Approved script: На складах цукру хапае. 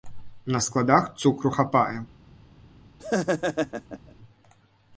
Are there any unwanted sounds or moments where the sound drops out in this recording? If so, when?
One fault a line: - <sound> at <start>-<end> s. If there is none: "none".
- laugh at 3.0-4.1 s